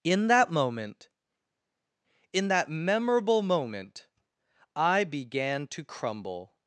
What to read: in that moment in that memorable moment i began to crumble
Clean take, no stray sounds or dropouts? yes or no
yes